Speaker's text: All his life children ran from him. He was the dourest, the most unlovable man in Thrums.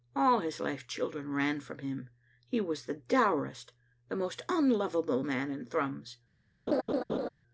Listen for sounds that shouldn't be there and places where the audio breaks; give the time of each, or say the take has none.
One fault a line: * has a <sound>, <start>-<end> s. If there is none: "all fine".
* has a laugh, 6.7-7.3 s